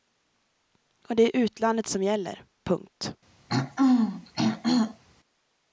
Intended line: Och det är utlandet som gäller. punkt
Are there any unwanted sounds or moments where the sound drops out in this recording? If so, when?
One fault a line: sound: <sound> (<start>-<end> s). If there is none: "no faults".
sound: throat clearing (3.5-5.0 s)